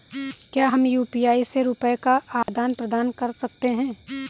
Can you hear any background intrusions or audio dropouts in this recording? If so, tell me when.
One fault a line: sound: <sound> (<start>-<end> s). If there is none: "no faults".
sound: dropout (2.4-2.5 s)